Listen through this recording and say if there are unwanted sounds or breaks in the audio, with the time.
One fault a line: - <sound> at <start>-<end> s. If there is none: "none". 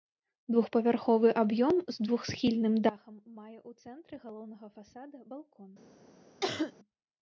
- cough at 6.4-6.7 s